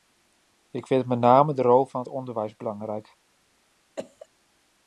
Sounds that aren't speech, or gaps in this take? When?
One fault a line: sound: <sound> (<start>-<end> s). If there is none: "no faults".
sound: cough (4.0-4.3 s)